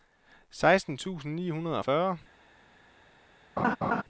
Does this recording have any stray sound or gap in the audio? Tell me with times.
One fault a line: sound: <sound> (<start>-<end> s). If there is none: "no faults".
sound: laugh (3.6-4.0 s)